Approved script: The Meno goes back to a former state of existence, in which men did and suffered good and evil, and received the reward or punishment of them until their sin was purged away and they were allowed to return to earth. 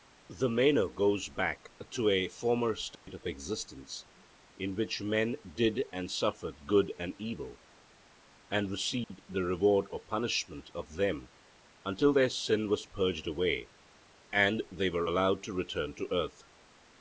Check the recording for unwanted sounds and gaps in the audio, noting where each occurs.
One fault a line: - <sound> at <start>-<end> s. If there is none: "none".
- dropout at 3.0-3.1 s
- dropout at 9.0-9.1 s